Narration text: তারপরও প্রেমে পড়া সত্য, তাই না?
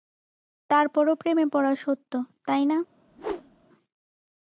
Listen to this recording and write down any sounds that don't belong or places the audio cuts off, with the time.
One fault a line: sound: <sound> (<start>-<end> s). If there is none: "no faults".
sound: whoosh (3.1-3.7 s)